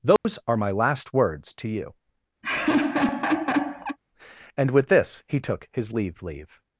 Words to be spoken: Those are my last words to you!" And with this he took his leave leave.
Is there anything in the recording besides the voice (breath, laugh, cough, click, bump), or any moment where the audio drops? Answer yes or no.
yes